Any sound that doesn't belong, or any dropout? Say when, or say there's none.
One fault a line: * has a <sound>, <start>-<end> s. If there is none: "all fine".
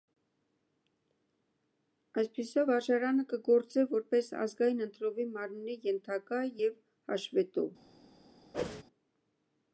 * has a whoosh, 8.5-8.8 s